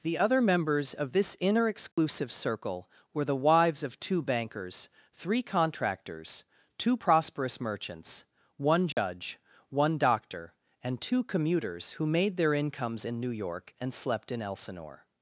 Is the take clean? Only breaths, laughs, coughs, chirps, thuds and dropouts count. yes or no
no